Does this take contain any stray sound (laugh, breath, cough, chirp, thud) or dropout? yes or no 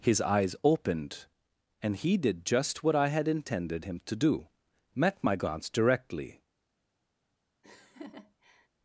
yes